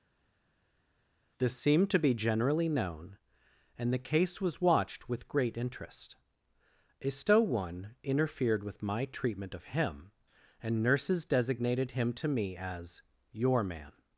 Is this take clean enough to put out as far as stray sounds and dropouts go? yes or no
yes